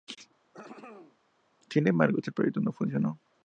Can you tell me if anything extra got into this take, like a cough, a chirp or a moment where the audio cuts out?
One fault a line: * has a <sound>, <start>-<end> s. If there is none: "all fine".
* has a throat clearing, 0.5-1.2 s